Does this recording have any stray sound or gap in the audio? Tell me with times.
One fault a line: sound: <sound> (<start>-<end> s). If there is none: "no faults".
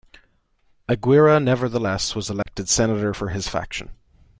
sound: dropout (2.4-2.5 s)